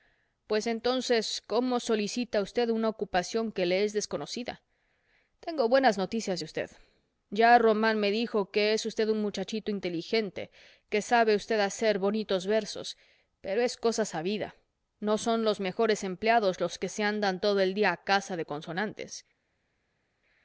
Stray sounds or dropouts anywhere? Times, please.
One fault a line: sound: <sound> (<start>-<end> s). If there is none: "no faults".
no faults